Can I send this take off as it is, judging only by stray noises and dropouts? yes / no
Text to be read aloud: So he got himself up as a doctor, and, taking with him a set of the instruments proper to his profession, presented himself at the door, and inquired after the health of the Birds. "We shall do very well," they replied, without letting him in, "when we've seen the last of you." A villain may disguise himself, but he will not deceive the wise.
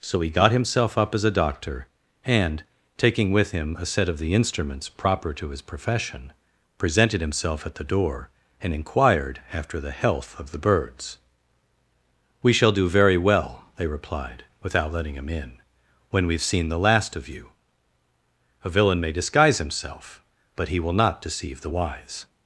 yes